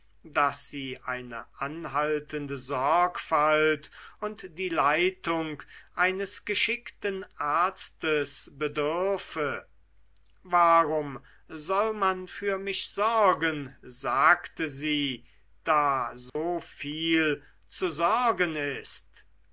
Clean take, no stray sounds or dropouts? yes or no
no